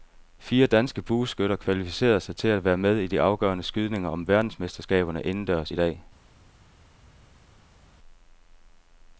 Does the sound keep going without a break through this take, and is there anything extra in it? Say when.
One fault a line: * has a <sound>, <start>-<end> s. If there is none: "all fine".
all fine